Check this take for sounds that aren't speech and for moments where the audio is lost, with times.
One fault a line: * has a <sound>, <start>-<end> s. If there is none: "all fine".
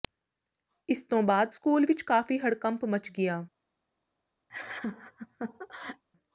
* has a laugh, 4.5-6.0 s